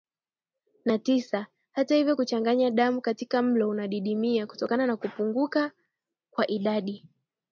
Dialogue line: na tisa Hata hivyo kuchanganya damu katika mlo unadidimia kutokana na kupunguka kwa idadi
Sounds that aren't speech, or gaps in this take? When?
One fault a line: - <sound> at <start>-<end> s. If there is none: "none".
none